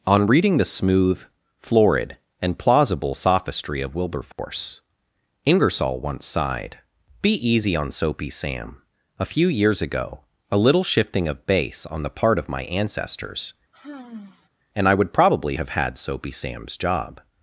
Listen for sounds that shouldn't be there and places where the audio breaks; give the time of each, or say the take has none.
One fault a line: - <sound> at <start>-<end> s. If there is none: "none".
- dropout at 4.3-4.4 s
- sigh at 13.7-14.5 s